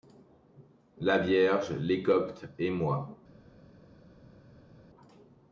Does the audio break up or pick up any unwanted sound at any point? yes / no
no